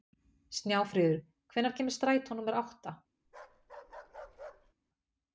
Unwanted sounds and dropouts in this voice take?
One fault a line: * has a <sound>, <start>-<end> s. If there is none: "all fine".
* has a bark, 3.2-4.7 s